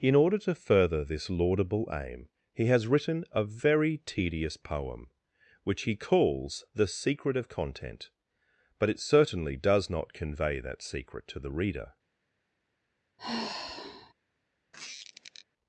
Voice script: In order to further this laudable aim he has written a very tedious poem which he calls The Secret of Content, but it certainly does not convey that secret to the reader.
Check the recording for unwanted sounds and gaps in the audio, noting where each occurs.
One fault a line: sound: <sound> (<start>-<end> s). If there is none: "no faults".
sound: sigh (13.2-14.1 s)
sound: squeak (14.7-15.5 s)